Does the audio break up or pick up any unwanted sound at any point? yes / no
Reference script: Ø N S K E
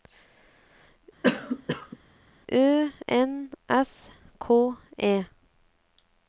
yes